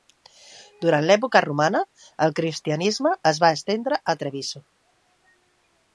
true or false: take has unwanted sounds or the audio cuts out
false